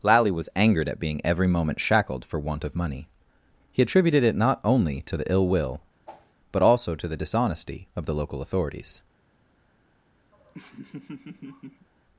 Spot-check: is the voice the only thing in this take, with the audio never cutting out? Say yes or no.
no